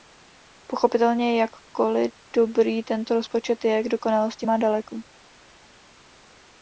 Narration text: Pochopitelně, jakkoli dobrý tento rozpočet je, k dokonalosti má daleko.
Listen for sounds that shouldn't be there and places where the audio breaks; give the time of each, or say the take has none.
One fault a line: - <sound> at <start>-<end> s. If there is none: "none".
none